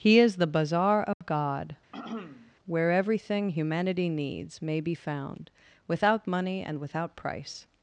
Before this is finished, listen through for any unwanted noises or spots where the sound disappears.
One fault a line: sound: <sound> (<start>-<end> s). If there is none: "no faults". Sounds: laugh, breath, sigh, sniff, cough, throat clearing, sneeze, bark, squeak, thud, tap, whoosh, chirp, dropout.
sound: dropout (1.1-1.2 s)
sound: throat clearing (1.9-2.5 s)